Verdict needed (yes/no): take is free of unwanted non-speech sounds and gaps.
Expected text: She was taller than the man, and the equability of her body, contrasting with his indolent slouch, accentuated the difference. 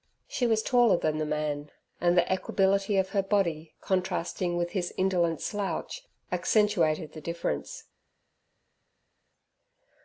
yes